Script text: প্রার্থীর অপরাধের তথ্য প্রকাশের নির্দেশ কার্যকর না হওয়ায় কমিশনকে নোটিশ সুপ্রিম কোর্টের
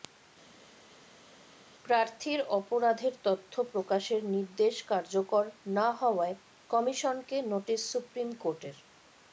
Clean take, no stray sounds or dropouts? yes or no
yes